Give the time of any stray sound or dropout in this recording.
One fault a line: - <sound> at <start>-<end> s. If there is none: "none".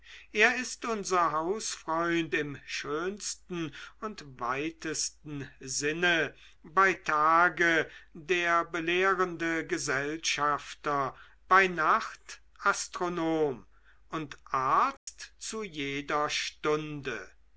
- dropout at 15.0-15.1 s